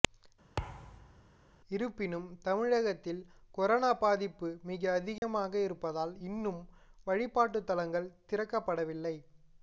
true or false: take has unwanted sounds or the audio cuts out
true